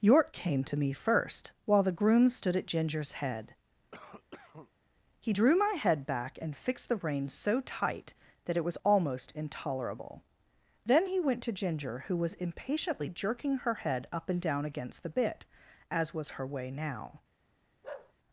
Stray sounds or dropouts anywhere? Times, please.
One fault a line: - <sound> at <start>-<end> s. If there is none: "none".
- cough at 3.9-4.7 s
- bark at 17.8-18.1 s